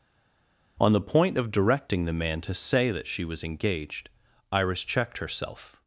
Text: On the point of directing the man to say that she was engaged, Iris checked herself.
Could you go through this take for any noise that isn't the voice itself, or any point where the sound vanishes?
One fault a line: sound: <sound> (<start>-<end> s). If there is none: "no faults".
no faults